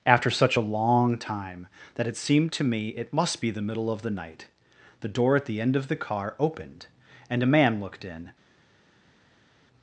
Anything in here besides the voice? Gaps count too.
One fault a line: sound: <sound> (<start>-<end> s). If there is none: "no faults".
no faults